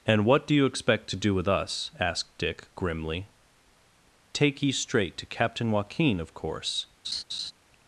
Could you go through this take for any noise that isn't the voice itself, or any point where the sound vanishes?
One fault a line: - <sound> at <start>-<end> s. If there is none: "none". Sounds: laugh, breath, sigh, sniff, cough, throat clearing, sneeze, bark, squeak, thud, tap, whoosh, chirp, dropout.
- laugh at 7.0-7.5 s